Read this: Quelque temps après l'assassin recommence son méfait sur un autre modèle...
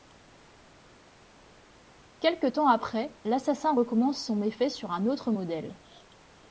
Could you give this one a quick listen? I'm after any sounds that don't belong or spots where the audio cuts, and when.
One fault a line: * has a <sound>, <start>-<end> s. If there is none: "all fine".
all fine